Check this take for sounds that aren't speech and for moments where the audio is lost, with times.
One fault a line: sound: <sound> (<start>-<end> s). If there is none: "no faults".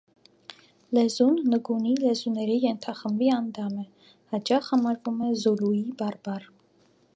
no faults